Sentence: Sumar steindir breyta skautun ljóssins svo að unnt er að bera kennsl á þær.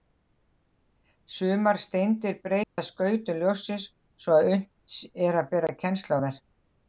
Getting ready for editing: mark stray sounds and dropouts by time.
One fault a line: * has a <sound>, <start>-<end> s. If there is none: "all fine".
* has a dropout, 2.6-2.8 s